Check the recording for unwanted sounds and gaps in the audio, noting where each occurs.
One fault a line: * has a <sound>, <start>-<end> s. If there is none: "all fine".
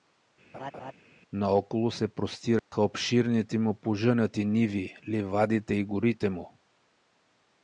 * has a laugh, 0.5-0.9 s
* has a dropout, 2.6-2.7 s